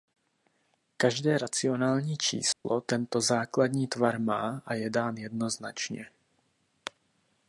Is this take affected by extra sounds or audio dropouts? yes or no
yes